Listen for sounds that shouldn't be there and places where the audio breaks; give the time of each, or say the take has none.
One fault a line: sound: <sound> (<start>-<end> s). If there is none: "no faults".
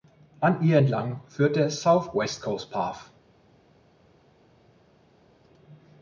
no faults